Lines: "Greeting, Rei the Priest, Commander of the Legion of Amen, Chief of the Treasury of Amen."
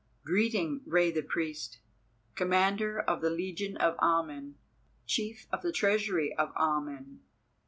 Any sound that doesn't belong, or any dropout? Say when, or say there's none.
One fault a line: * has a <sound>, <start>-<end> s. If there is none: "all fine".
all fine